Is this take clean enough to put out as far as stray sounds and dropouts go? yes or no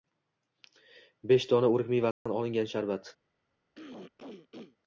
no